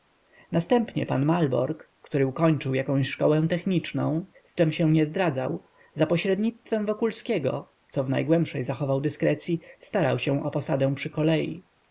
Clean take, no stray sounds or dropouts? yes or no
yes